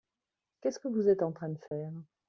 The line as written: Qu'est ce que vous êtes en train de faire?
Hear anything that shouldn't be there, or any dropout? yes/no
yes